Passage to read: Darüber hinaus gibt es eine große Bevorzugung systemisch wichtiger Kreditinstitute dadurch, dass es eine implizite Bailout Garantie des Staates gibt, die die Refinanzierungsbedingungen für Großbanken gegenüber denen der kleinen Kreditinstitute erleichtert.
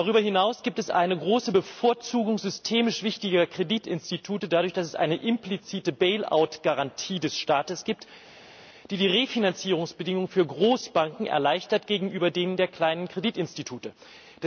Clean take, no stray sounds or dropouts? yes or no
yes